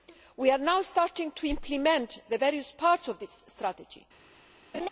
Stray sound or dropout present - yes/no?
yes